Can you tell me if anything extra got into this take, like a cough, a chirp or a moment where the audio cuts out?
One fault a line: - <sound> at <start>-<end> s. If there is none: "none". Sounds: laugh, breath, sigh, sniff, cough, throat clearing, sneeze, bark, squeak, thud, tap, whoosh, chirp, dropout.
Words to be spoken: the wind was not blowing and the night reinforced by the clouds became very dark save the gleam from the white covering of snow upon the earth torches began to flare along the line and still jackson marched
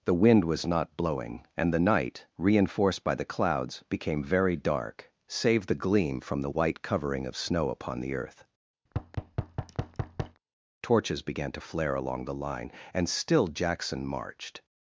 - thud at 8.9-10.4 s